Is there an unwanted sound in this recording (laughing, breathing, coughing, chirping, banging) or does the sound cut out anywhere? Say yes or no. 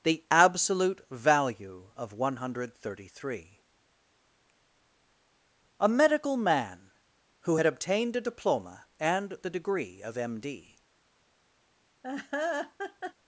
yes